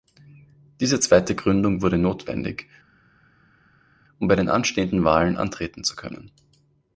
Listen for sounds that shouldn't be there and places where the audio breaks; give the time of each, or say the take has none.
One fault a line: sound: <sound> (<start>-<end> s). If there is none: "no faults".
no faults